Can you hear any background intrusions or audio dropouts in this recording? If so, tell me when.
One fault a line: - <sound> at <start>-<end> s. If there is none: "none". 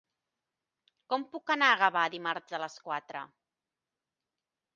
none